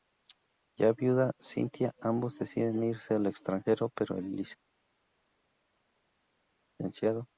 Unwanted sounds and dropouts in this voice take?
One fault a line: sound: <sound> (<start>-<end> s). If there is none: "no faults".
no faults